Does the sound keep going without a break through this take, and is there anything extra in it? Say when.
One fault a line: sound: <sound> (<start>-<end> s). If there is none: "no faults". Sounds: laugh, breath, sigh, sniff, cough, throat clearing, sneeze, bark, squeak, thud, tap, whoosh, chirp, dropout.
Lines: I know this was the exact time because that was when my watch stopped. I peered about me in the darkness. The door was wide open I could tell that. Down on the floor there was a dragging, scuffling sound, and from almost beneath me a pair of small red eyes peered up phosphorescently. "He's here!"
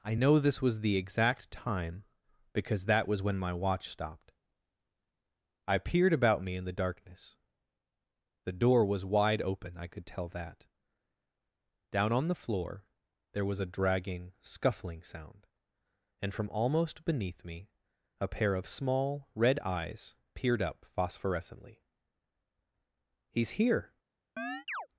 sound: chirp (24.4-24.9 s)